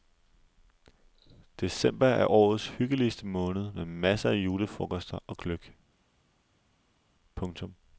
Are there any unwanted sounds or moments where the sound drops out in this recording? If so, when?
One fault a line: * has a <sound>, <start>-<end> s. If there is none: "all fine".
all fine